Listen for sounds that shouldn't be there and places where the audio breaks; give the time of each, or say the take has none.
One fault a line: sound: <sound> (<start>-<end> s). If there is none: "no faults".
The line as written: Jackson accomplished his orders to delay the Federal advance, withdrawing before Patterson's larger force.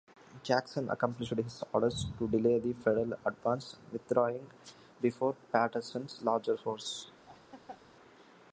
sound: laugh (7.3-7.8 s)